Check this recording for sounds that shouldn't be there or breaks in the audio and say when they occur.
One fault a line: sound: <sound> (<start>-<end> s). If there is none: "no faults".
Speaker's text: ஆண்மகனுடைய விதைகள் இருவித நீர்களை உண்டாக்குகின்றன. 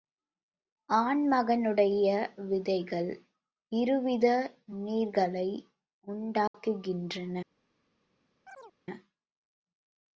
sound: dropout (6.5-6.5 s)
sound: chirp (8.5-8.8 s)